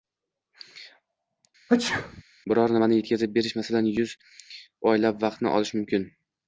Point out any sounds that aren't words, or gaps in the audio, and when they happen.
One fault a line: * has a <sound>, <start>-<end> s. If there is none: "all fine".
* has a sneeze, 1.7-2.2 s